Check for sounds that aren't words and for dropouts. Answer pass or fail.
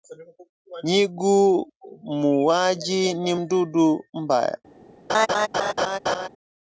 fail